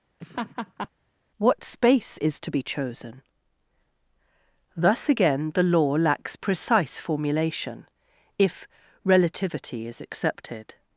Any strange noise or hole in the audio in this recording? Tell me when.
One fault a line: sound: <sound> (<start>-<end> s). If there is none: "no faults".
sound: laugh (0.2-0.9 s)